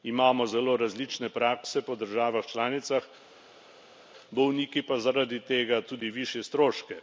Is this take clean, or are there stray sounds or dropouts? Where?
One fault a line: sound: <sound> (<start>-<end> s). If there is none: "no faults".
no faults